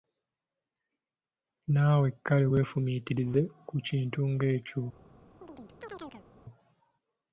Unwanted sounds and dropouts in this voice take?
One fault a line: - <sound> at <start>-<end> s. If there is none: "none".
- chirp at 5.4-6.3 s